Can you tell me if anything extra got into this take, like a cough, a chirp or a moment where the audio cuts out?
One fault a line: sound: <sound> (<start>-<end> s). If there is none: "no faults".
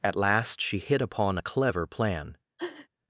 sound: sniff (2.6-2.9 s)